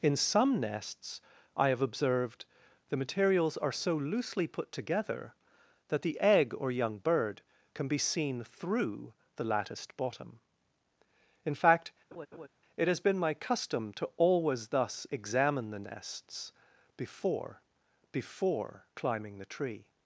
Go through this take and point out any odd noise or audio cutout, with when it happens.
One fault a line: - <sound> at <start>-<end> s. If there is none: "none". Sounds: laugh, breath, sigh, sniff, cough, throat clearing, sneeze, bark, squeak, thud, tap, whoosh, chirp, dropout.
- laugh at 12.1-12.5 s